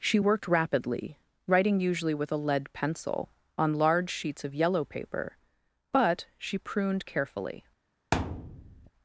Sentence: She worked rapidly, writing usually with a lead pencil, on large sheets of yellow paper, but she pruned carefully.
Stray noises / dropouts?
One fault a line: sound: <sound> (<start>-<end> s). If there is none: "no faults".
sound: thud (8.1-8.9 s)